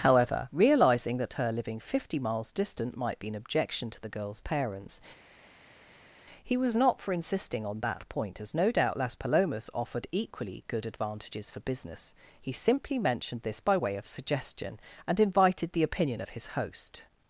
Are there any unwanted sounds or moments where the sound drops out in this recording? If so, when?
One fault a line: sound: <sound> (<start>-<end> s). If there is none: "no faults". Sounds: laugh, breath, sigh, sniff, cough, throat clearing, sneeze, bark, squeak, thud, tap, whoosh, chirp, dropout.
no faults